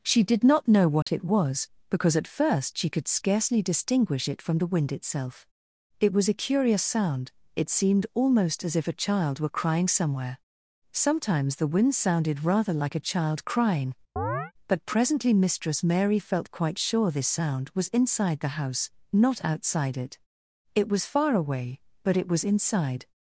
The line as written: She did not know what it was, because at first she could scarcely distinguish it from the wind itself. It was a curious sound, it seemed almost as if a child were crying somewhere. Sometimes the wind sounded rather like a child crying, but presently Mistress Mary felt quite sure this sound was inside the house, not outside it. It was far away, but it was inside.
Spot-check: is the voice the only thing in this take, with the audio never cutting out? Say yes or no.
no